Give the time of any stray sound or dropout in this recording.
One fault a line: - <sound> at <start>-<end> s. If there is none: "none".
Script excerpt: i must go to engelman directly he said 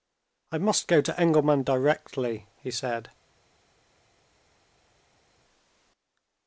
none